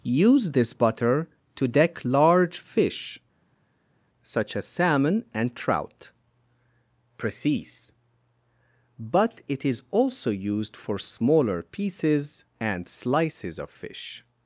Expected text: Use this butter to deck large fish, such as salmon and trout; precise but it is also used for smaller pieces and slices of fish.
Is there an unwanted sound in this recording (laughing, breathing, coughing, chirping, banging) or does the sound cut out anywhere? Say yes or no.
no